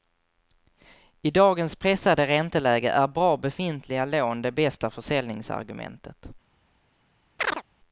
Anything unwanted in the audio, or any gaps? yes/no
yes